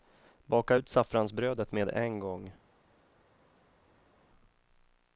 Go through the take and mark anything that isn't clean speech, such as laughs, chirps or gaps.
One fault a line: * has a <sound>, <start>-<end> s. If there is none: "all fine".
all fine